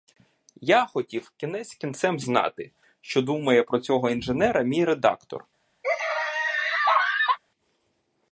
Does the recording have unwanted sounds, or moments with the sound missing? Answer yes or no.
yes